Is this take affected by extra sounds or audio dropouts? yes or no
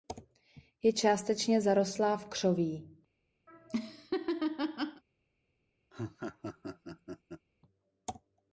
yes